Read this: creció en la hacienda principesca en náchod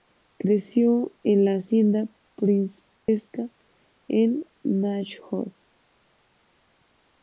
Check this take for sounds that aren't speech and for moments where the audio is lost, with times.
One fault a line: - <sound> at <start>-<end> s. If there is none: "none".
- dropout at 3.0-3.1 s